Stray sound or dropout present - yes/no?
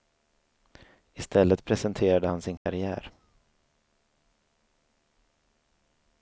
yes